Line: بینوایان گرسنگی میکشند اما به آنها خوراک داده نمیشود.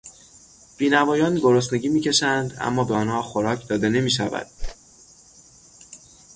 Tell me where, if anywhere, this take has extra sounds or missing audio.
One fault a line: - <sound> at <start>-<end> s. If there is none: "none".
- whoosh at 4.6-4.8 s